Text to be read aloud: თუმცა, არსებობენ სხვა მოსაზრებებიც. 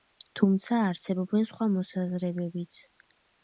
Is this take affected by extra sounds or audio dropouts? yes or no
no